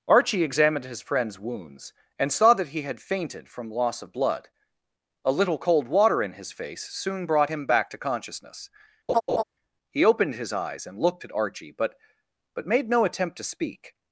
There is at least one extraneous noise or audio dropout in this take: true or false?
true